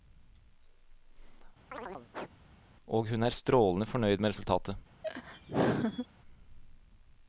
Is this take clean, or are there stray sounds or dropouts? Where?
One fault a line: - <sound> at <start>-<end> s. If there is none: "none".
- chirp at 1.7-2.3 s
- laugh at 5.0-6.1 s